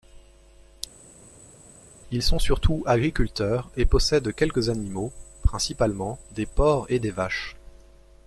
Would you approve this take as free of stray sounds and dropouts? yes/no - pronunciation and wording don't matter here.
yes